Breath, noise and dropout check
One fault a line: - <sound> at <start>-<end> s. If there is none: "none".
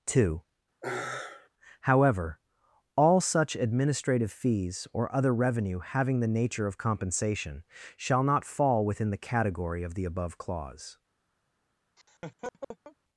- sigh at 0.8-1.5 s
- laugh at 12.0-13.0 s